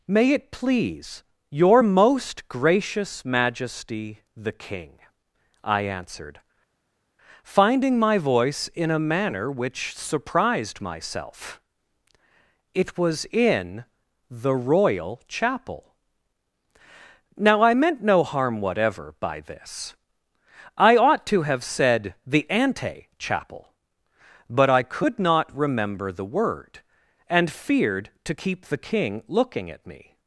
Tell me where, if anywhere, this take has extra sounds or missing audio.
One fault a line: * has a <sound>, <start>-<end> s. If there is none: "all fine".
all fine